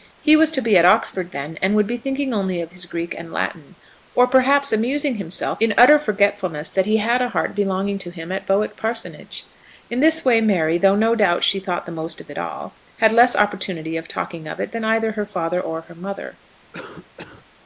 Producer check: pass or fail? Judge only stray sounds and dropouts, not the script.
fail